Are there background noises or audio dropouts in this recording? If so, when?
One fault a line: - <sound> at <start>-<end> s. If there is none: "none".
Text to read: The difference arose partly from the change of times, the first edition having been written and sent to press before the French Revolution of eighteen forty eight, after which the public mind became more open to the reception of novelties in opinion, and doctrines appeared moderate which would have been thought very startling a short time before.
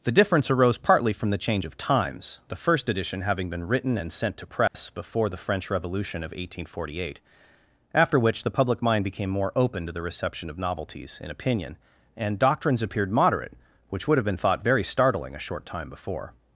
- dropout at 4.7-4.7 s